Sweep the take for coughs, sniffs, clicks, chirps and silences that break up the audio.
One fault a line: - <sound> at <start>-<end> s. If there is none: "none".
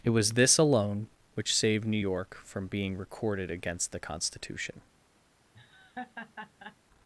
- laugh at 5.5-6.8 s